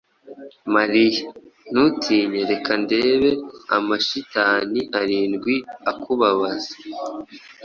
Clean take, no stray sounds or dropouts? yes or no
yes